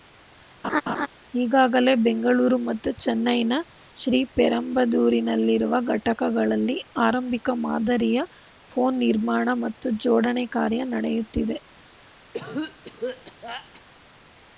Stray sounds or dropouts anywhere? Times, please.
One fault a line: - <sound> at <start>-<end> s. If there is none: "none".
- laugh at 0.6-1.1 s
- cough at 12.3-13.8 s